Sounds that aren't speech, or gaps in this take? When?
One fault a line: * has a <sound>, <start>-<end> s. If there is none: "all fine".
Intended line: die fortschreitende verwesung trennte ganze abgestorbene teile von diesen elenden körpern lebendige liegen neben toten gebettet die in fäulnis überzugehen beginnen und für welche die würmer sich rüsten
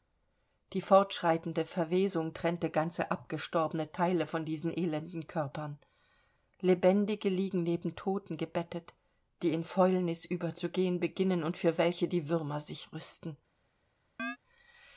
* has a chirp, 14.2-14.4 s